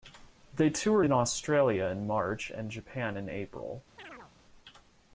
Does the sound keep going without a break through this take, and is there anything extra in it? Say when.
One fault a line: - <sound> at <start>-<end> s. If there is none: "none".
- chirp at 4.0-4.3 s